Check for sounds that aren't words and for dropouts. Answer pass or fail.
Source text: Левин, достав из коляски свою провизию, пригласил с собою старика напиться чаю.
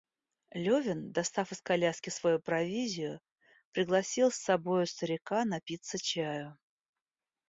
pass